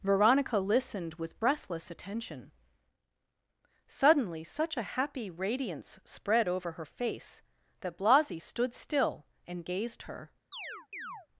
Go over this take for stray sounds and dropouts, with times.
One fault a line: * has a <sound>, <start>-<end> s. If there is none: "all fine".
* has a chirp, 10.5-11.3 s